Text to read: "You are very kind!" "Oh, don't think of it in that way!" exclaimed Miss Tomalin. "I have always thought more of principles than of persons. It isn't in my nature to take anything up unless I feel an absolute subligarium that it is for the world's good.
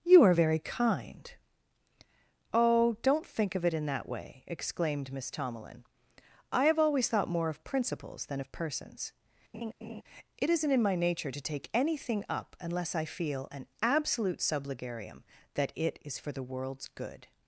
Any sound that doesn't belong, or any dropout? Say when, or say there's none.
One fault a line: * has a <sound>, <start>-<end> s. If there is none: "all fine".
* has a laugh, 9.5-10.0 s